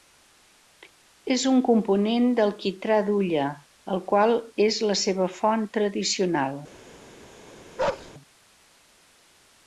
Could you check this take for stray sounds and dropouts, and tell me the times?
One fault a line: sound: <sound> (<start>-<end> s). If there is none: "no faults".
sound: bark (7.8-8.1 s)